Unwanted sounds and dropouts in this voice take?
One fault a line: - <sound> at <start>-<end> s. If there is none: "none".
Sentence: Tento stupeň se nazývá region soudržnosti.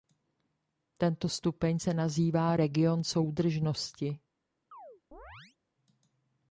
- chirp at 4.7-5.6 s